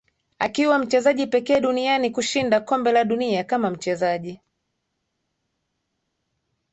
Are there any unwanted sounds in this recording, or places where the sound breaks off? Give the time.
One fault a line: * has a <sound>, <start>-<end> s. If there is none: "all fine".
all fine